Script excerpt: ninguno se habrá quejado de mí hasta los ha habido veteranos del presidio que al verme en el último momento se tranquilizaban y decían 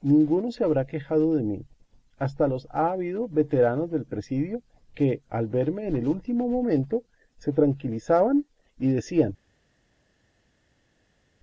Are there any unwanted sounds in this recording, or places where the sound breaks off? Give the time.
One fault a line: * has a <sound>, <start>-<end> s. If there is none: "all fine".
all fine